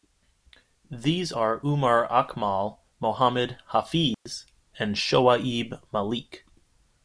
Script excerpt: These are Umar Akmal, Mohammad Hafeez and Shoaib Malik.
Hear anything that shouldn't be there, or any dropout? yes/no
yes